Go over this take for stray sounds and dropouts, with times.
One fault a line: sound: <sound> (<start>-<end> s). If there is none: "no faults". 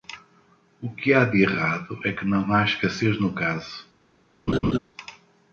sound: laugh (4.5-4.8 s)